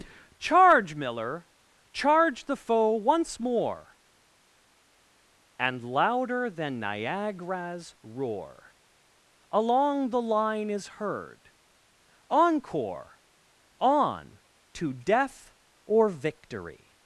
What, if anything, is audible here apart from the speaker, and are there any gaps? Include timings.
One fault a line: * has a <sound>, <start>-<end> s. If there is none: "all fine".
all fine